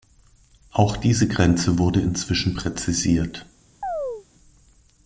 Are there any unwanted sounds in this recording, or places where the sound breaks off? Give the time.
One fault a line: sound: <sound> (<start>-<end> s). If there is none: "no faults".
sound: chirp (3.8-4.3 s)